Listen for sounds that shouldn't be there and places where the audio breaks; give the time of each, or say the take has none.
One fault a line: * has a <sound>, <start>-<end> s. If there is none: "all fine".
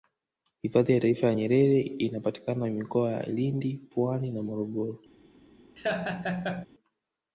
* has a laugh, 5.8-6.7 s